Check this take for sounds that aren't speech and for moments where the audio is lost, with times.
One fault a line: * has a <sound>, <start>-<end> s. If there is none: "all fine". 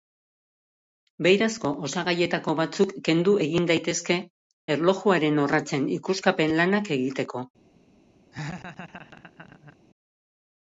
* has a laugh, 8.3-9.8 s